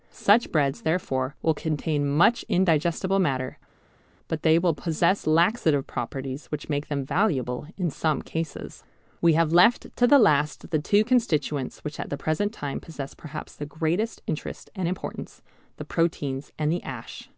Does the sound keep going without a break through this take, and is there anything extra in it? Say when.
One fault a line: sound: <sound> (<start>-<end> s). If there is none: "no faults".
no faults